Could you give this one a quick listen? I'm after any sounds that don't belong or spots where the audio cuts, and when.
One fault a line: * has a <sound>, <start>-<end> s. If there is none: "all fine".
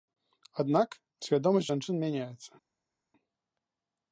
all fine